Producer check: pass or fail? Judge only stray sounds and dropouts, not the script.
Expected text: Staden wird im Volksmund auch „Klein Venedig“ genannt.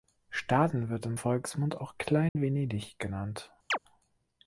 fail